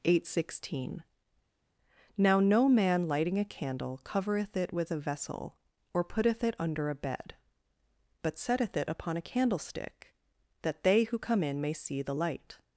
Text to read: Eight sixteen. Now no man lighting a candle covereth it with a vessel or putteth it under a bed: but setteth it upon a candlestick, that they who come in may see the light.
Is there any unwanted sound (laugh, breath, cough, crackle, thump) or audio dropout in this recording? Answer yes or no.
no